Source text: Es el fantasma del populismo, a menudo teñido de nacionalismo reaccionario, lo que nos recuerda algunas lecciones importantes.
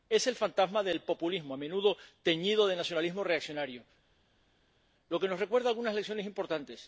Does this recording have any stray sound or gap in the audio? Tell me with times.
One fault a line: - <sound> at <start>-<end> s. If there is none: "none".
none